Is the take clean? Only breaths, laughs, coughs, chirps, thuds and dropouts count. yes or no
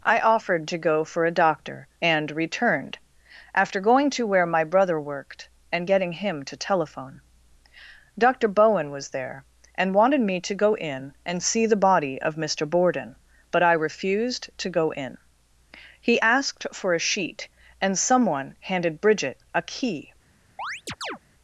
no